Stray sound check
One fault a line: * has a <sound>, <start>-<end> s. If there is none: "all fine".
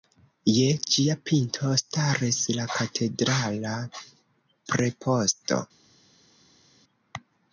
all fine